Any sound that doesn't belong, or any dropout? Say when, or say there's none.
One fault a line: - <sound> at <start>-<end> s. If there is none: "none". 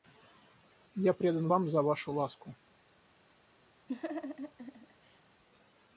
- laugh at 3.9-5.2 s